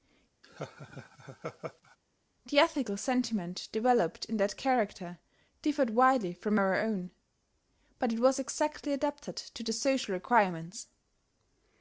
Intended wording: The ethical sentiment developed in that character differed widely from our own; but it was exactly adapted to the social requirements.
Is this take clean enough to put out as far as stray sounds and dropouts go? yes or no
no